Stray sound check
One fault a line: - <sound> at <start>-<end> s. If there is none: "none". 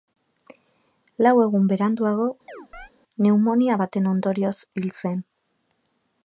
- chirp at 2.5-2.9 s